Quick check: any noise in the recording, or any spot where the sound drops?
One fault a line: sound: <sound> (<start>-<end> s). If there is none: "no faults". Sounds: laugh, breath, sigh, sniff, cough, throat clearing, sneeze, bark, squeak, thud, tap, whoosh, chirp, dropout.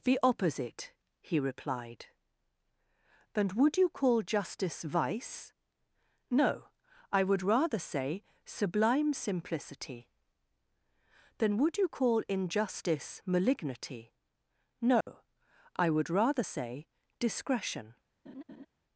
sound: dropout (15.0-15.1 s)
sound: laugh (18.3-18.7 s)